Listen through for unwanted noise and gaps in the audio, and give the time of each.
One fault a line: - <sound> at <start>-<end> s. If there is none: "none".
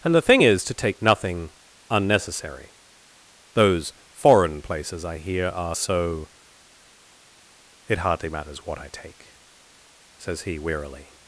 none